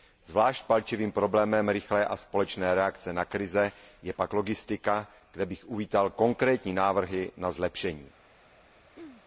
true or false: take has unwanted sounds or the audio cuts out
true